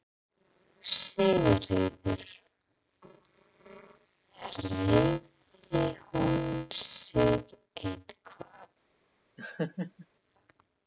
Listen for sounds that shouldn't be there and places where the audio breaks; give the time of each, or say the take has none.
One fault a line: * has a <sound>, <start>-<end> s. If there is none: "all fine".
* has a laugh, 9.4-10.1 s